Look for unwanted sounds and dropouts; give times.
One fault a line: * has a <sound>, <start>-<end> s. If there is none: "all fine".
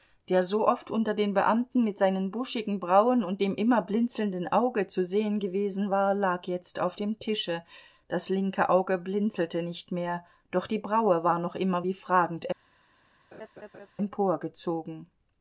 * has a laugh, 13.3-13.9 s